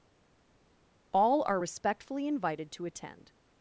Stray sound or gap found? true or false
false